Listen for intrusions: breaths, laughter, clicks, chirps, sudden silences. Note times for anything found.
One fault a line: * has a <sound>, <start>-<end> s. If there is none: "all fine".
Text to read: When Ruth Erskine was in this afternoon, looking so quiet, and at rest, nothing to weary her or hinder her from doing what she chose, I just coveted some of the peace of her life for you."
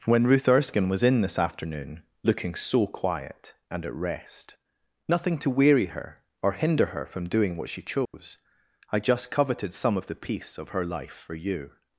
* has a dropout, 8.1-8.1 s